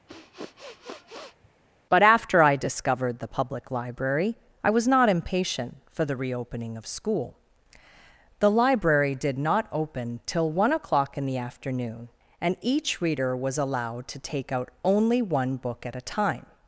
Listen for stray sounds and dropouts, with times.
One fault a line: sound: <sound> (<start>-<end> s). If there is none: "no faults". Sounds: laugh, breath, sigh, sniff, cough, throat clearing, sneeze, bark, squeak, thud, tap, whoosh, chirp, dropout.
sound: sniff (0.1-1.5 s)